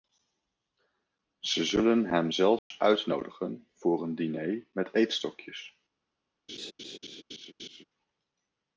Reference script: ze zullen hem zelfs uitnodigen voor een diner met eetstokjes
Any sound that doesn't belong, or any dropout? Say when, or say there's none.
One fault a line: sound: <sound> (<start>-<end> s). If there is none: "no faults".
sound: dropout (2.6-2.7 s)
sound: laugh (6.5-7.8 s)